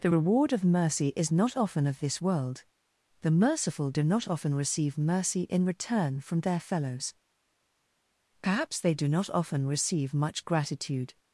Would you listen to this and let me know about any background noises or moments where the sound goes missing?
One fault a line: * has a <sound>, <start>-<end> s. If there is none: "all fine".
all fine